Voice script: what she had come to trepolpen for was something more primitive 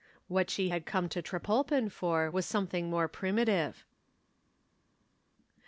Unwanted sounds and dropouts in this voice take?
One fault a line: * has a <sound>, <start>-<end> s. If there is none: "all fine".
all fine